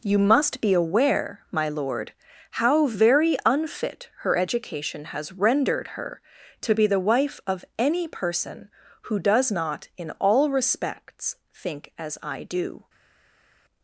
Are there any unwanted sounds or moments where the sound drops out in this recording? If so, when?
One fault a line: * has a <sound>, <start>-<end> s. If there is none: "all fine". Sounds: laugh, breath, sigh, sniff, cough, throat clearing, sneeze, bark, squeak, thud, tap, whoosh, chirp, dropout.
all fine